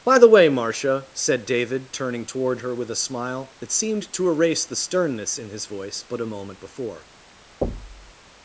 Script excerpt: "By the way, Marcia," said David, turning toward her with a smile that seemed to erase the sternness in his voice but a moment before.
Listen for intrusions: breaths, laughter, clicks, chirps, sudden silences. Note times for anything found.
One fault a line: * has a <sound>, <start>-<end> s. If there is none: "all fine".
* has a thud, 7.6-8.1 s